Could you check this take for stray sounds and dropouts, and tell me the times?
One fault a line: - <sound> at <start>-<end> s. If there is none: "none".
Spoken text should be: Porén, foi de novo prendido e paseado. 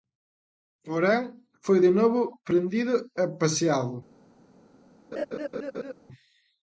- laugh at 5.1-5.9 s